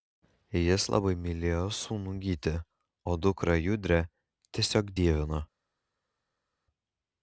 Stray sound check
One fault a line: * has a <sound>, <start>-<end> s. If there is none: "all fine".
all fine